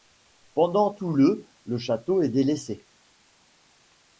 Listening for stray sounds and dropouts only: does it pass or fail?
pass